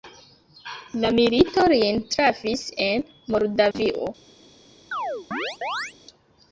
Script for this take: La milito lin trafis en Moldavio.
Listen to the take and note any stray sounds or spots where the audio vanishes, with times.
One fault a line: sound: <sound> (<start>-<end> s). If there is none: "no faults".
sound: dropout (3.7-3.7 s)
sound: chirp (4.9-5.9 s)